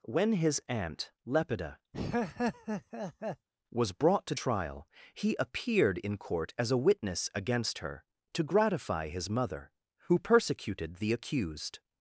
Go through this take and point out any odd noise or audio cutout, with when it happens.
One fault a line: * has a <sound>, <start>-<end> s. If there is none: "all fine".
* has a laugh, 1.9-3.5 s